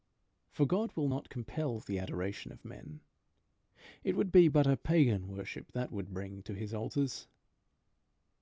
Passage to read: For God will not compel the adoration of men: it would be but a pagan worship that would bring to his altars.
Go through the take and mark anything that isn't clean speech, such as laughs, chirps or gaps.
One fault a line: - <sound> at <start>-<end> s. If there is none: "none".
none